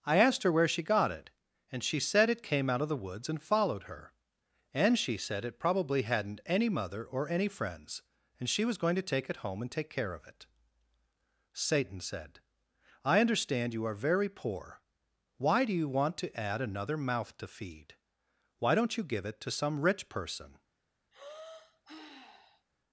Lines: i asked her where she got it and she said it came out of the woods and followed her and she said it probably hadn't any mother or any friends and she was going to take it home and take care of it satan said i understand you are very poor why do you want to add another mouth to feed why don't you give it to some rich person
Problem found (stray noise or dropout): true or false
true